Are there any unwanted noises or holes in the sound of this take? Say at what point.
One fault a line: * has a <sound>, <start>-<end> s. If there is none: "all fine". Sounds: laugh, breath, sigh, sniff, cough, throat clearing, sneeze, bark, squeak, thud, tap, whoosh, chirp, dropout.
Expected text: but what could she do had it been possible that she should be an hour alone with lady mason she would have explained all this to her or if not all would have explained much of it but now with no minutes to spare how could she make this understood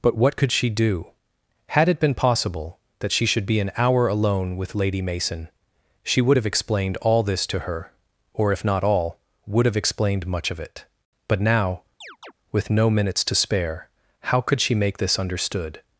* has a chirp, 12.0-12.3 s